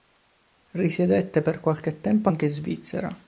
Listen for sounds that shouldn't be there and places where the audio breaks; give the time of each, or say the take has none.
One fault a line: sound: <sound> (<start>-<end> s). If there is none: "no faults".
no faults